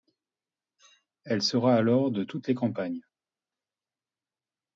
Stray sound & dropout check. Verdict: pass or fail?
pass